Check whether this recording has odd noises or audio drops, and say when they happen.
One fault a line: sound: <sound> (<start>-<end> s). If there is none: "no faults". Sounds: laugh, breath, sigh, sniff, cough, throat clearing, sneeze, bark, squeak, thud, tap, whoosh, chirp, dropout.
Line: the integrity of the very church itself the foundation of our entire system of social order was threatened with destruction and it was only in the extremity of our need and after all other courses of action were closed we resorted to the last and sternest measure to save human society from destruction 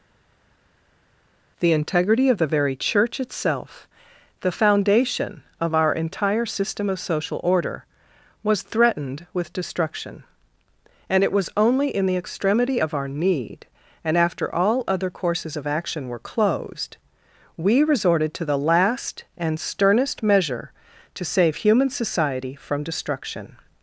no faults